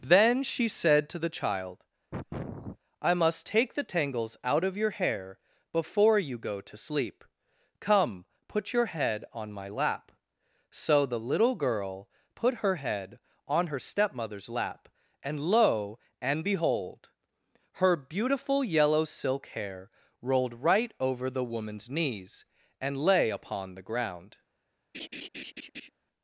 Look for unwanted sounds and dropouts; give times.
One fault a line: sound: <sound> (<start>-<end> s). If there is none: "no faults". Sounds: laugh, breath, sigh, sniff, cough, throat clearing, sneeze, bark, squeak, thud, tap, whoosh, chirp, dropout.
sound: sniff (2.1-2.8 s)
sound: laugh (24.9-25.9 s)